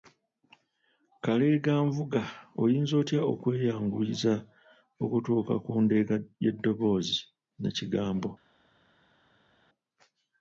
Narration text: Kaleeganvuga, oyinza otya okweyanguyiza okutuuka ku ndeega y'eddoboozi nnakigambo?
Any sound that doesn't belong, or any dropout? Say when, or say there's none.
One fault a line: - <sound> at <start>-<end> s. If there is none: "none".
none